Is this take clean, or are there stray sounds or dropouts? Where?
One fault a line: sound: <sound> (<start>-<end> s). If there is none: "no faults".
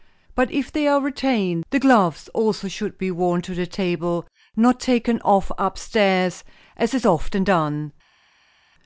no faults